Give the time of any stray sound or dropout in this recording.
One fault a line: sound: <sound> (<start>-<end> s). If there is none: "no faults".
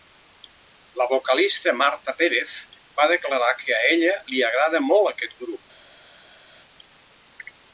no faults